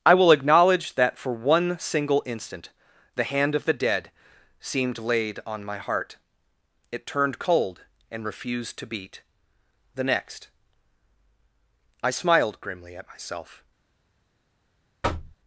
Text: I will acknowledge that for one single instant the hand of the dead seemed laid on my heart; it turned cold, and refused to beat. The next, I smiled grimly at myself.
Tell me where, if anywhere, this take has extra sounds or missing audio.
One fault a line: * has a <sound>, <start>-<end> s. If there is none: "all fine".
* has a thud, 15.0-15.4 s